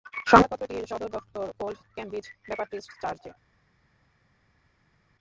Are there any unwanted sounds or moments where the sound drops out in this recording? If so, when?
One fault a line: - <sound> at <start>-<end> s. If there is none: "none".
none